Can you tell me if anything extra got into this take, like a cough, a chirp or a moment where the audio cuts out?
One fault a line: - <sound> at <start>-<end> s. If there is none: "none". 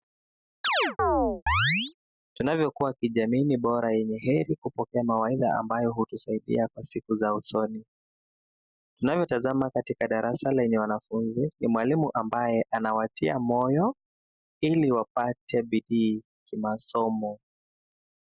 - chirp at 0.6-1.9 s